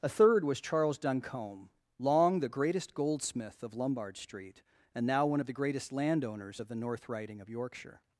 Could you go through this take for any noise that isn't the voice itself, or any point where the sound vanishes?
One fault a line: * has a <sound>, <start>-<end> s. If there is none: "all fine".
all fine